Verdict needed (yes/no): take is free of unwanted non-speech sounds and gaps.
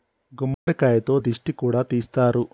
no